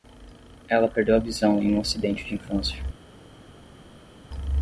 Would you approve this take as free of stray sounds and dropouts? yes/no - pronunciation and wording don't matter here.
yes